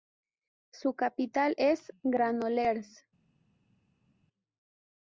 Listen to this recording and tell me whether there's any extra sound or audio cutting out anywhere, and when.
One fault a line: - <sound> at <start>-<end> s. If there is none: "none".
none